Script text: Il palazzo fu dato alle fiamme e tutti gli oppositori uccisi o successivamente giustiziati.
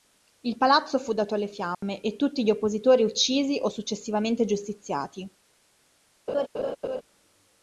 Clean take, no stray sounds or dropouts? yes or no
no